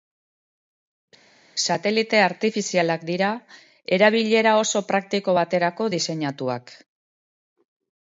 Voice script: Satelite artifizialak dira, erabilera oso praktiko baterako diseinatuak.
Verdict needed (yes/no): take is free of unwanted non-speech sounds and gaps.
yes